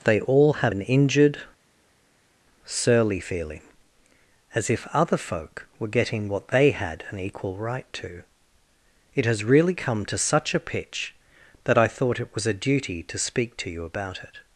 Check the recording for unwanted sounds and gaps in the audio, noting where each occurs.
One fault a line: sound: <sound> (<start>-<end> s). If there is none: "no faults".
no faults